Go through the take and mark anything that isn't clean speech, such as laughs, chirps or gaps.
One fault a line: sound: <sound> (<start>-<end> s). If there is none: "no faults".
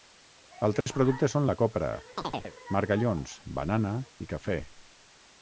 sound: dropout (0.8-0.9 s)
sound: chirp (2.2-2.5 s)